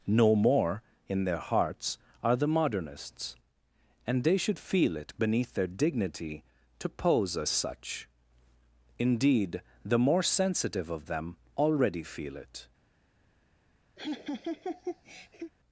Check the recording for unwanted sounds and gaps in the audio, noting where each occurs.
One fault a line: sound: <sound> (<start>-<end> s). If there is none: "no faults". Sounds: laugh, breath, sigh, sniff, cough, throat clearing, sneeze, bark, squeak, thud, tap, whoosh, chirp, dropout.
sound: laugh (14.0-15.5 s)